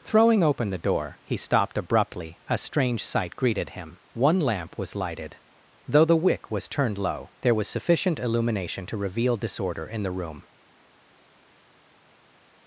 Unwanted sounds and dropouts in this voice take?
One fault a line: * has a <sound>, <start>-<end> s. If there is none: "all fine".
all fine